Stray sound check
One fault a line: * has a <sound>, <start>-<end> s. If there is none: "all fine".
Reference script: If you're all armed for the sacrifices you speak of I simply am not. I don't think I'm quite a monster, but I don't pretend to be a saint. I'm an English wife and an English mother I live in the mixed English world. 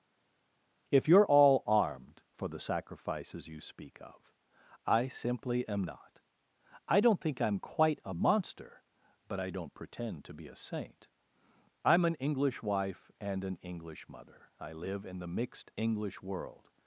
all fine